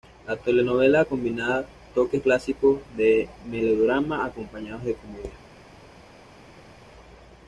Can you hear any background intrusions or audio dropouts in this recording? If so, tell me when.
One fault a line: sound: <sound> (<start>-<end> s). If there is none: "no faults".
no faults